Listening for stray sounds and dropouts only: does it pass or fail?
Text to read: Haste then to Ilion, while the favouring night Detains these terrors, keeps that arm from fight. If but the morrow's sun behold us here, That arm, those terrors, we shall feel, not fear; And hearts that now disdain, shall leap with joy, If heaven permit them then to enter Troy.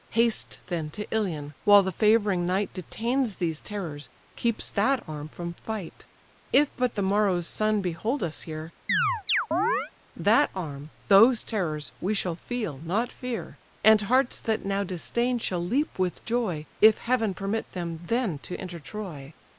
fail